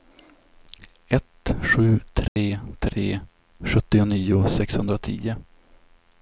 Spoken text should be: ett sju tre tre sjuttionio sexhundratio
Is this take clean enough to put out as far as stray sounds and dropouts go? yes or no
no